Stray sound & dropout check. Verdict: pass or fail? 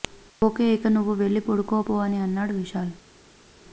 pass